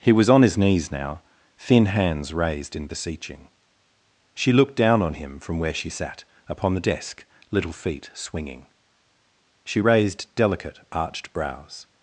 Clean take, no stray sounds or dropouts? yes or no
yes